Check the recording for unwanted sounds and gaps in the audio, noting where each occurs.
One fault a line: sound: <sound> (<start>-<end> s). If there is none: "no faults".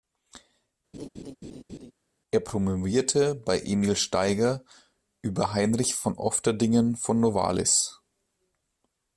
sound: laugh (0.9-1.9 s)